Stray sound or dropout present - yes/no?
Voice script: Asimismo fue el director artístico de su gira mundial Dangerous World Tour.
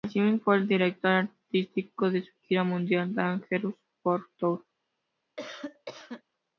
yes